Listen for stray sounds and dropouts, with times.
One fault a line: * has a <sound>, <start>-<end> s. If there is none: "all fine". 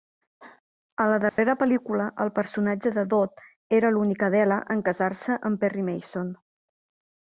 * has a dropout, 1.3-1.4 s